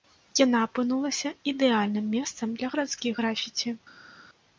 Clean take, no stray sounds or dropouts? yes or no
yes